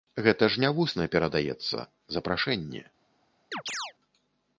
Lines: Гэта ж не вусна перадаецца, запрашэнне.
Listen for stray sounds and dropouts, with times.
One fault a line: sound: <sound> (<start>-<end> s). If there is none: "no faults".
sound: chirp (3.5-3.9 s)